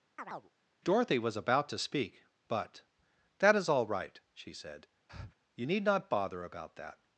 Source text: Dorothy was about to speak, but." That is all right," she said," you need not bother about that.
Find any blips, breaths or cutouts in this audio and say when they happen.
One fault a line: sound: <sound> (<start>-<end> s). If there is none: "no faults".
sound: chirp (0.2-0.5 s)
sound: breath (5.1-5.3 s)